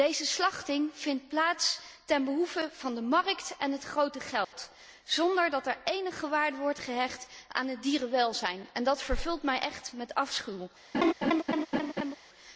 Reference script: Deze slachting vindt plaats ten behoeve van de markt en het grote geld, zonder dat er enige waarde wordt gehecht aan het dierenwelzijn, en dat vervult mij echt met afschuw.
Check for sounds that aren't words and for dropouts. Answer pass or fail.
fail